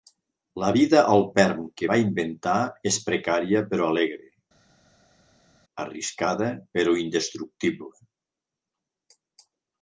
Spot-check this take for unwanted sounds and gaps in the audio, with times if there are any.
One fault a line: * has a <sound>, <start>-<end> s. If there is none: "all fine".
all fine